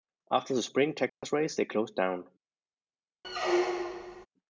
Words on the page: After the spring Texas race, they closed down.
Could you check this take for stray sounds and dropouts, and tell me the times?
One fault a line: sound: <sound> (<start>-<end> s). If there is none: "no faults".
sound: dropout (1.1-1.2 s)
sound: squeak (3.2-4.3 s)